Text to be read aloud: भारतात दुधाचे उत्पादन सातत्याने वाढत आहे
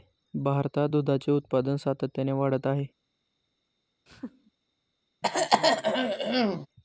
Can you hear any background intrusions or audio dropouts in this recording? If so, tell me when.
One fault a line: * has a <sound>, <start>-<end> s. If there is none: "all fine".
* has a laugh, 4.1-4.5 s
* has a throat clearing, 5.2-6.7 s